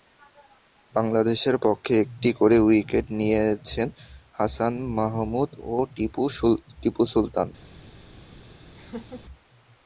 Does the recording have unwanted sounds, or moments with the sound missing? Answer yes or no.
yes